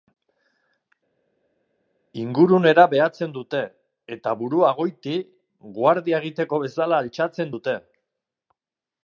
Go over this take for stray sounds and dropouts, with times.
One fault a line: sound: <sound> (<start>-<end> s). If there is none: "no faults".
no faults